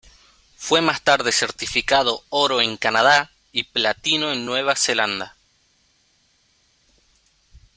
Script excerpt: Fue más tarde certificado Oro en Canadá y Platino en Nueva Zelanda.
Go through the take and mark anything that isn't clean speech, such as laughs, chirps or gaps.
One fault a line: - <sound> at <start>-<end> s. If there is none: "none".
none